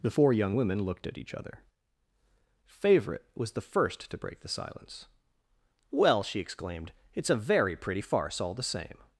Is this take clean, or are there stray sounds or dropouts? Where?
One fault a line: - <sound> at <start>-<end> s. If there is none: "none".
none